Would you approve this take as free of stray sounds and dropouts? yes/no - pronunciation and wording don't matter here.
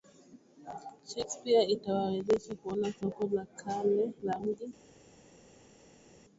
yes